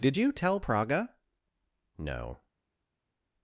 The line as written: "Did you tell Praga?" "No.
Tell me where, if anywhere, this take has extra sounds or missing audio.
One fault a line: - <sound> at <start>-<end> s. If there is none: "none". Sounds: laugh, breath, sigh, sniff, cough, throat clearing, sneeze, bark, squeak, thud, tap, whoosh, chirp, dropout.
none